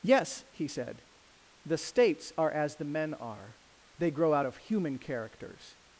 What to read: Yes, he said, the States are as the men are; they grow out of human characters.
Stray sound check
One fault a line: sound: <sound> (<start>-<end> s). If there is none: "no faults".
no faults